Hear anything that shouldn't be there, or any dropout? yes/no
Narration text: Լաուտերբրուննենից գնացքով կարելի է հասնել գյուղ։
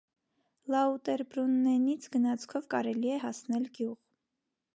no